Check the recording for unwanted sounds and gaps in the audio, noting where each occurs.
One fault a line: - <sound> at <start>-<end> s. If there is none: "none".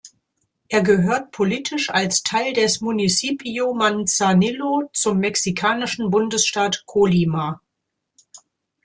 none